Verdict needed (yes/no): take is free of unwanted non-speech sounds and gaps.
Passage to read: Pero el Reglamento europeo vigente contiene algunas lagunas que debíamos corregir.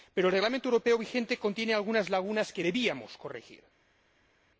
yes